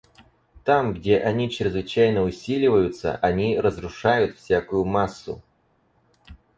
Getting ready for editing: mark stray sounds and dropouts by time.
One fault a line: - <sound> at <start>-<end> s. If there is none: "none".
none